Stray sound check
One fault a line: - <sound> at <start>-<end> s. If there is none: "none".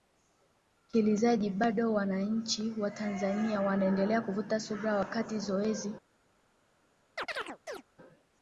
- chirp at 7.2-7.8 s